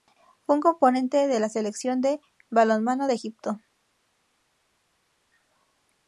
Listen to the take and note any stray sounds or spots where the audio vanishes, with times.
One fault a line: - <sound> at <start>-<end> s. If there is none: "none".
none